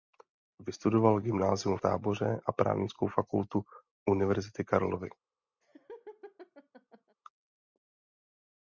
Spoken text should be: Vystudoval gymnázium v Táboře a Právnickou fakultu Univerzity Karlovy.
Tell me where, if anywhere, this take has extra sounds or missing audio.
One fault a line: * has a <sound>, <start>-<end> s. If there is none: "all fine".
* has a laugh, 5.6-7.2 s